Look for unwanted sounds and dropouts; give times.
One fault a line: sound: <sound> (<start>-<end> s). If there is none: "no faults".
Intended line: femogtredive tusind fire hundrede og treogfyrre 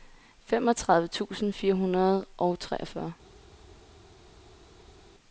no faults